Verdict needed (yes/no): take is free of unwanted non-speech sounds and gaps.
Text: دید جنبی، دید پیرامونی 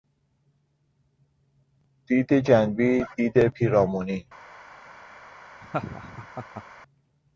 no